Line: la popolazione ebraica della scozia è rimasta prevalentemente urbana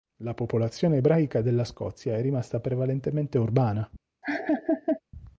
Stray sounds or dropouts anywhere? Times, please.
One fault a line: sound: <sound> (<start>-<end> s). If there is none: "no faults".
sound: laugh (4.2-5.0 s)